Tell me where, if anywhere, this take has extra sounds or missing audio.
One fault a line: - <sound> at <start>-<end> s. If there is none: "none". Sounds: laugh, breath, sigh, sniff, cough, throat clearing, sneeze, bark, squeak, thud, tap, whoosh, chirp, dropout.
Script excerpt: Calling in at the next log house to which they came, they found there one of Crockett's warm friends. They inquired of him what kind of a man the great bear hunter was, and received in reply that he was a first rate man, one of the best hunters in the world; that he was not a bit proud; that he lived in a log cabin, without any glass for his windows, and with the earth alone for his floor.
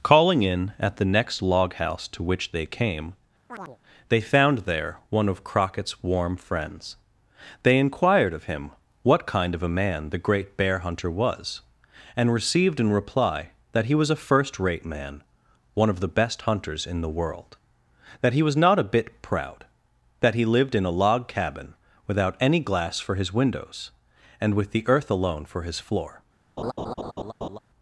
- chirp at 3.5-3.8 s
- laugh at 26.6-27.6 s